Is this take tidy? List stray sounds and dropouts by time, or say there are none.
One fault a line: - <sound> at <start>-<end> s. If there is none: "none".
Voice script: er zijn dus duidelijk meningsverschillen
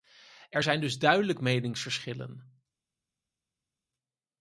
none